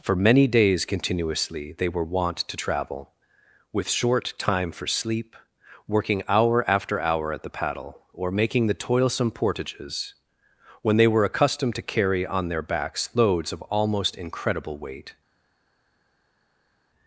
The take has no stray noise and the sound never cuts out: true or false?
true